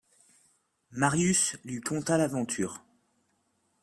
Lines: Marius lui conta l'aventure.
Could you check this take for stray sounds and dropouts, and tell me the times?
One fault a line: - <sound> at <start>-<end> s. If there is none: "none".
none